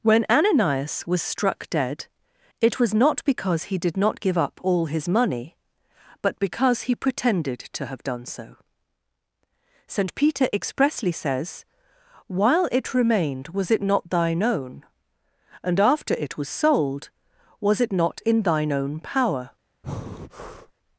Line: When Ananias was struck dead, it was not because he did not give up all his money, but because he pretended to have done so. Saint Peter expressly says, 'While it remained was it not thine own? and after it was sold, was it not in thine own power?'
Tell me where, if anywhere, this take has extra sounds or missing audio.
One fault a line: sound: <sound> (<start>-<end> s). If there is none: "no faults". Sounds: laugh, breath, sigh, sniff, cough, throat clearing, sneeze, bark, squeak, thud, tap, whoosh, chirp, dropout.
sound: breath (19.8-20.7 s)